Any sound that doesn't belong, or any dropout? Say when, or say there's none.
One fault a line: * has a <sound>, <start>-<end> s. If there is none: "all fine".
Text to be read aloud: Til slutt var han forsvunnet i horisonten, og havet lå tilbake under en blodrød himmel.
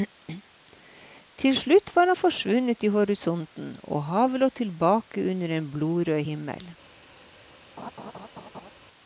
* has a laugh, 7.8-8.7 s